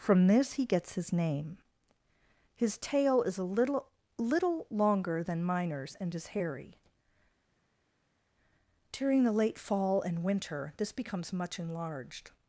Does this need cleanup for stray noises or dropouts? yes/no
no